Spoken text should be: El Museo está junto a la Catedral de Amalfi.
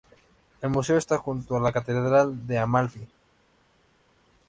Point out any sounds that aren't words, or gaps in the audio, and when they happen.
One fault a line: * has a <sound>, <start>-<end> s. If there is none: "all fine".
all fine